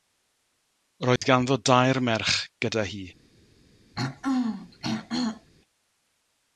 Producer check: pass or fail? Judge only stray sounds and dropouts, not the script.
fail